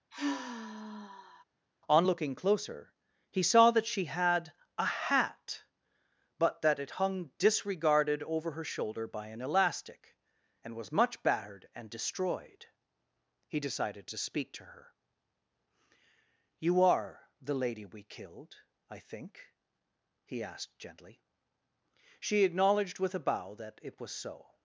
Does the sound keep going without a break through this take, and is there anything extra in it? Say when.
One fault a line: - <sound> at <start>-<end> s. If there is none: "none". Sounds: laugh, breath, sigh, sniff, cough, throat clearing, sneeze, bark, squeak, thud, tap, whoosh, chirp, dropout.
- sigh at 0.1-1.4 s